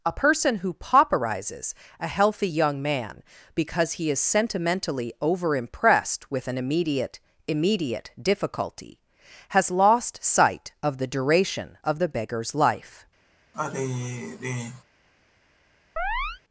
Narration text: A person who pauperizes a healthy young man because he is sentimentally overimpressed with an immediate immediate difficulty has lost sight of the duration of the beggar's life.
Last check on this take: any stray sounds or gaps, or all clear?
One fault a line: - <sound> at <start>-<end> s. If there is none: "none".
- sigh at 13.5-14.8 s
- chirp at 16.0-16.4 s